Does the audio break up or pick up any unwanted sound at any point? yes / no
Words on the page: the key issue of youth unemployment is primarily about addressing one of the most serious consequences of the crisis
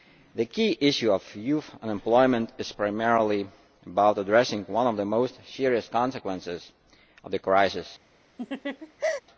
yes